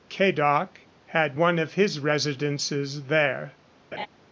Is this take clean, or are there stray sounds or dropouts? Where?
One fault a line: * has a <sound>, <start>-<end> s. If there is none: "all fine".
* has a laugh, 3.9-4.1 s